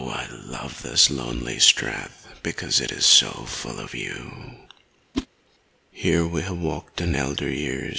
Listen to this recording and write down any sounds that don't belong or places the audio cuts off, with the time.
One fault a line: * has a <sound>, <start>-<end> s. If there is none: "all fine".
* has a whoosh, 5.1-5.3 s